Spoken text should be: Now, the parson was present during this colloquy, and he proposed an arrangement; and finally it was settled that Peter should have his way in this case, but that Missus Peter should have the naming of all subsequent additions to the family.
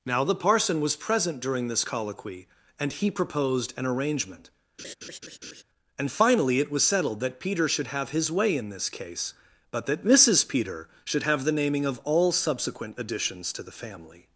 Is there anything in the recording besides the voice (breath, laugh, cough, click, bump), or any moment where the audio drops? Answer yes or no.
yes